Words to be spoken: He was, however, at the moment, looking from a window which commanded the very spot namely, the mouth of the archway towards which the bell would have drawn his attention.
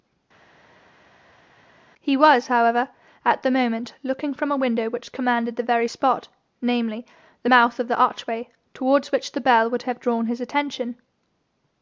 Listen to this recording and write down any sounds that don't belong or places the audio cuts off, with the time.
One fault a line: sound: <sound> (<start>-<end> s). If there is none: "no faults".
no faults